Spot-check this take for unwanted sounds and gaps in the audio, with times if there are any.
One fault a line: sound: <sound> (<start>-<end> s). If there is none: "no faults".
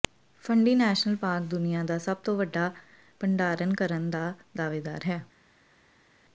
no faults